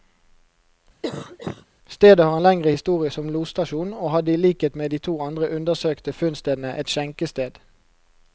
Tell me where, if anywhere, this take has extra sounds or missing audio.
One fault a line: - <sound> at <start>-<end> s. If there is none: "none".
- cough at 1.0-1.7 s